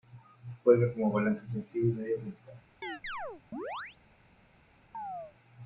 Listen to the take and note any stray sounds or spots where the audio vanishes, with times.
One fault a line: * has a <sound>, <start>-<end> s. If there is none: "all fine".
* has a chirp, 2.8-4.0 s
* has a chirp, 4.9-5.3 s